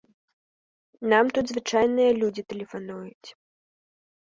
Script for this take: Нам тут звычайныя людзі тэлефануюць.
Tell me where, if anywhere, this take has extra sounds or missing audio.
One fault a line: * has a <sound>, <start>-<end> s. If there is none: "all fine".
all fine